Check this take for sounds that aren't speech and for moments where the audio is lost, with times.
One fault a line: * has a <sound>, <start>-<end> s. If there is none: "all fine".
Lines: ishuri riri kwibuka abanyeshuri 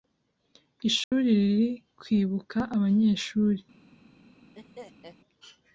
* has a dropout, 1.0-1.1 s
* has a laugh, 4.6-5.2 s